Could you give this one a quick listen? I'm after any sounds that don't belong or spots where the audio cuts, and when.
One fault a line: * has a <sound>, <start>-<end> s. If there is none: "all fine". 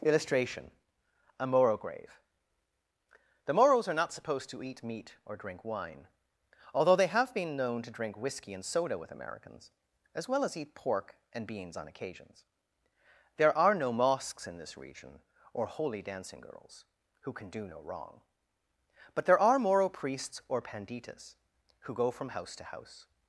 all fine